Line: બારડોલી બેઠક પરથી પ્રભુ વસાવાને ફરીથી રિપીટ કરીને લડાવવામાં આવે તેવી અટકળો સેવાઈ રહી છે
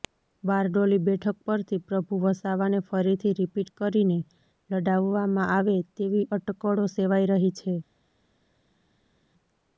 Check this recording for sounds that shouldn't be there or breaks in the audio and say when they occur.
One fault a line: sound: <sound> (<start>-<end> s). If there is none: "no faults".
no faults